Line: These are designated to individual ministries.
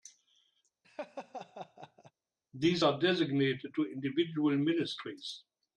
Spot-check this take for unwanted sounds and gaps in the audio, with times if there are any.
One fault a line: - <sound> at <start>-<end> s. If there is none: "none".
- laugh at 0.8-2.1 s